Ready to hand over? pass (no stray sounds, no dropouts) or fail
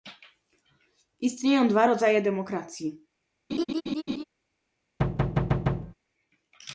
fail